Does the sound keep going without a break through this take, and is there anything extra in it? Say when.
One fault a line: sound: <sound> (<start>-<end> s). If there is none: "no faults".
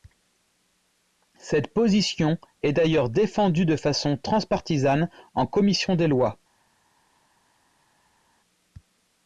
no faults